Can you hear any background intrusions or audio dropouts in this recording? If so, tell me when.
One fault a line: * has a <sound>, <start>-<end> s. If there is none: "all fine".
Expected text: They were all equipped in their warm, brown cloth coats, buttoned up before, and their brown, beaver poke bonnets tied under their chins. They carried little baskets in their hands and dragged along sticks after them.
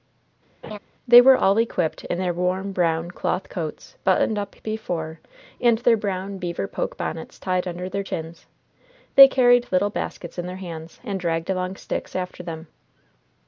* has a laugh, 0.6-0.8 s